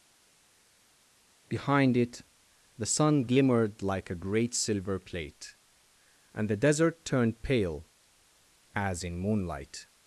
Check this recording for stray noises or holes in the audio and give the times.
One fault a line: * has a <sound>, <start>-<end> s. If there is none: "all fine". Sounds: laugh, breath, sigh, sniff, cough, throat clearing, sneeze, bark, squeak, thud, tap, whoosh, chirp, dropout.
all fine